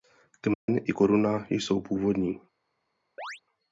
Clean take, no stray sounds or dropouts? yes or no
no